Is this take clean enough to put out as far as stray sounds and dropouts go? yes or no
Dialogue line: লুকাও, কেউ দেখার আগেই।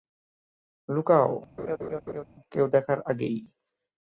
no